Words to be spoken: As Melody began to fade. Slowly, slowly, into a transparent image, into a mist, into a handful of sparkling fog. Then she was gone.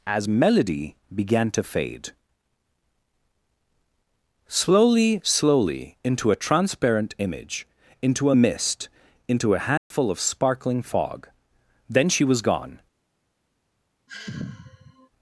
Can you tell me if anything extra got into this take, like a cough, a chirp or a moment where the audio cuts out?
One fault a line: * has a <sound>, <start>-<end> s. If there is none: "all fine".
* has a dropout, 9.8-9.9 s
* has a sigh, 14.1-15.1 s